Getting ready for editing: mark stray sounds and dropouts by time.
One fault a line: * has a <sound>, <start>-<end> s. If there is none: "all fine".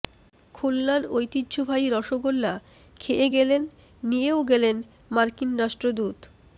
all fine